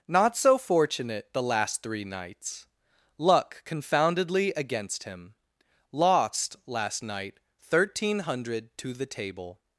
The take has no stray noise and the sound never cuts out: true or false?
true